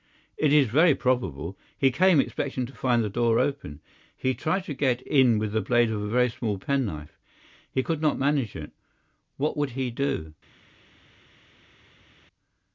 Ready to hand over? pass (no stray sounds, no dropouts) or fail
pass